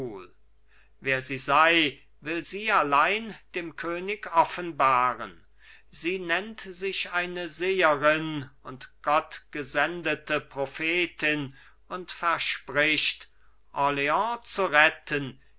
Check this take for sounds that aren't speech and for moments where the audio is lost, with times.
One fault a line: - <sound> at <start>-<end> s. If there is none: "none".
none